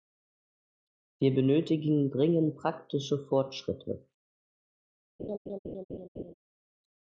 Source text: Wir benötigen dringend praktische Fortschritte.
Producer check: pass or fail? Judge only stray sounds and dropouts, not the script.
fail